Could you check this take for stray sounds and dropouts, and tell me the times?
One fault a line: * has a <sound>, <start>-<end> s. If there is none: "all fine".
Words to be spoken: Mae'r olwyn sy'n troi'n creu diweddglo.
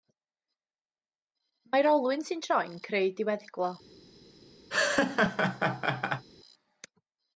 * has a laugh, 4.7-6.3 s